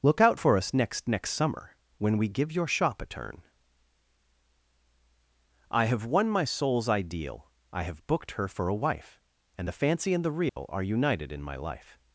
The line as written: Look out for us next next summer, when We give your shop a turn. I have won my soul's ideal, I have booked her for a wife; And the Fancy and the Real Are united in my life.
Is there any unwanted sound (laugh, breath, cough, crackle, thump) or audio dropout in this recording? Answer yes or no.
yes